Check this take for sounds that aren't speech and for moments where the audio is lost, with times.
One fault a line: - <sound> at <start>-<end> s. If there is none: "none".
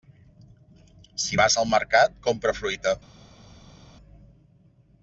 none